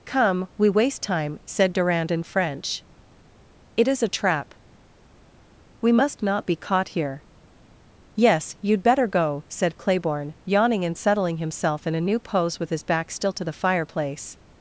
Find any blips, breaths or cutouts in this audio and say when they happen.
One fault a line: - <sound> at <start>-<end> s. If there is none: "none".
none